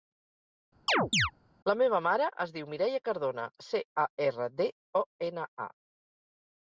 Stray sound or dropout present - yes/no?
yes